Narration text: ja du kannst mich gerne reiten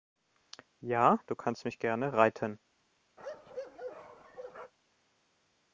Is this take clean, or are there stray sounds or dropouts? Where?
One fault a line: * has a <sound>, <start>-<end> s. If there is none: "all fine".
* has a bark, 3.2-4.7 s